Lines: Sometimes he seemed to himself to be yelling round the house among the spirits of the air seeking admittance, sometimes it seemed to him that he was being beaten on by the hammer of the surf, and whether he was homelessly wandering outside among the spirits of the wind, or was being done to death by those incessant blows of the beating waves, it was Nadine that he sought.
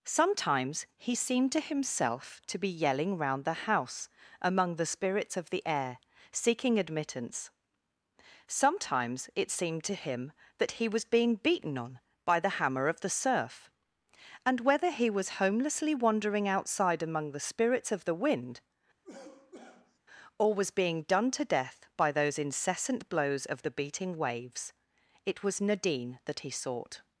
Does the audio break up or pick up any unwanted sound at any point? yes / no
yes